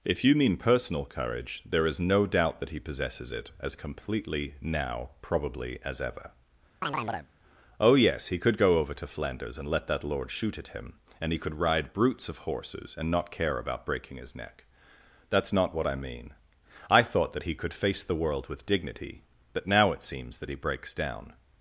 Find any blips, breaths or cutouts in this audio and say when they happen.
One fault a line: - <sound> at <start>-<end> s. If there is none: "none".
- chirp at 6.8-7.3 s